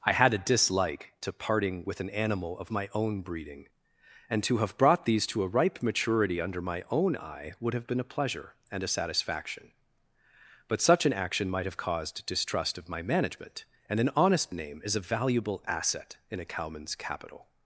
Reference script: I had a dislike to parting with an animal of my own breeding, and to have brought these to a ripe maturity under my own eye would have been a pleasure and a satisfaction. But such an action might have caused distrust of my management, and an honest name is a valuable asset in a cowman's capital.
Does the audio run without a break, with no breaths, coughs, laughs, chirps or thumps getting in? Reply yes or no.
yes